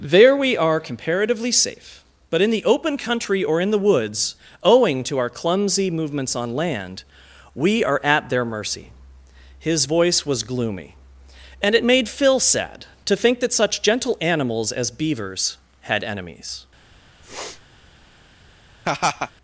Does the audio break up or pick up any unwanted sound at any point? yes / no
yes